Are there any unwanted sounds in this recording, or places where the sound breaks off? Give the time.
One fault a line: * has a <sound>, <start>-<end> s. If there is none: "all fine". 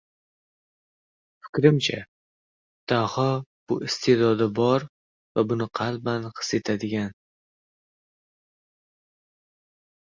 all fine